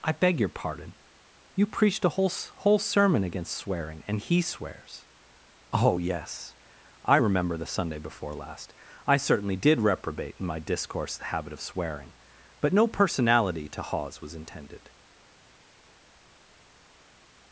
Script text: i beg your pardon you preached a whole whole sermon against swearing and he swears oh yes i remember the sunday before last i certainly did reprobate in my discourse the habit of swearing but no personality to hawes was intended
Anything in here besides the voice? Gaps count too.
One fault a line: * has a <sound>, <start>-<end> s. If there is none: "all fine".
all fine